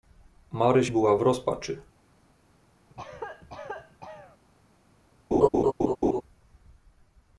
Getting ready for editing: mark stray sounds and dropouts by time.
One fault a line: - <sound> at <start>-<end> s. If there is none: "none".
- cough at 2.9-4.4 s
- laugh at 5.3-6.2 s